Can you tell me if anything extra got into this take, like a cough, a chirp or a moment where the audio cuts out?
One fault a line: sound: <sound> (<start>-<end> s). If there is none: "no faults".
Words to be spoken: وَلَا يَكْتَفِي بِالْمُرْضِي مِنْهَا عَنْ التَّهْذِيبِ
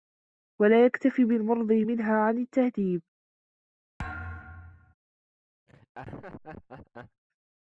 sound: thud (4.0-4.9 s)
sound: laugh (5.7-7.2 s)